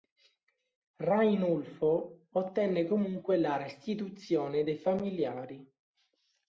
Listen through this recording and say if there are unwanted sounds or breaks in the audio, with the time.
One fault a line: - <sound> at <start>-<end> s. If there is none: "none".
none